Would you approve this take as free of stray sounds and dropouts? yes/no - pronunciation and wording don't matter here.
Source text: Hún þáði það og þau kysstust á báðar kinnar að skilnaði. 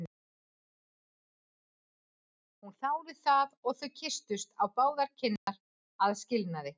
no